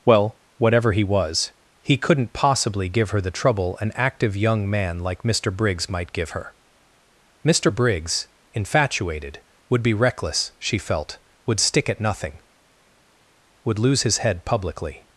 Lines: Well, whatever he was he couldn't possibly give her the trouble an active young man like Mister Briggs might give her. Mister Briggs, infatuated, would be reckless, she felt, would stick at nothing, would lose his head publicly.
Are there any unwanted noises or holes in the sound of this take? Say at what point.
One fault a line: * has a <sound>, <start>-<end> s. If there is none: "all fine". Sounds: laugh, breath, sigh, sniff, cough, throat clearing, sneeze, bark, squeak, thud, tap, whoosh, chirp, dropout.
all fine